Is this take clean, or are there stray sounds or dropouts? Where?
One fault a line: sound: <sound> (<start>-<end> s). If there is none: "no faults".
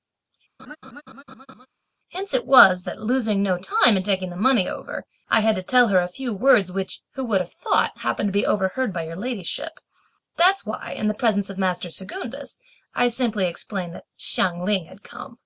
sound: laugh (0.6-1.7 s)